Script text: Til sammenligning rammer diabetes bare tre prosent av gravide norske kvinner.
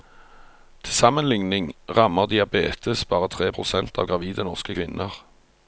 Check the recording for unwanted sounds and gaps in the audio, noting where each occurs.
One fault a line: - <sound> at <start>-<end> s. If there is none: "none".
none